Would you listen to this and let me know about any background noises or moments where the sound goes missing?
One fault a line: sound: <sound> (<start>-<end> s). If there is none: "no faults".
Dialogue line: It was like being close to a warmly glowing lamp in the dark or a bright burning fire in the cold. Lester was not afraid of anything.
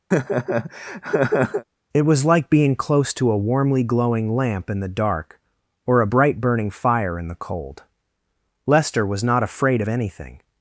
sound: laugh (0.1-1.6 s)